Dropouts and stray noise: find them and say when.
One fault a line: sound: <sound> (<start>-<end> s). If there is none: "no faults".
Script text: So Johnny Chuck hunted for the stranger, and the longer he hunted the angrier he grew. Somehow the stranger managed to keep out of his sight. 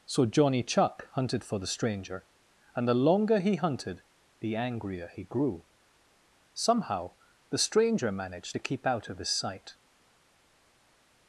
no faults